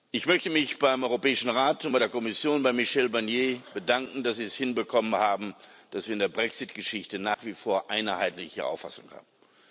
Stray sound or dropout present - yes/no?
yes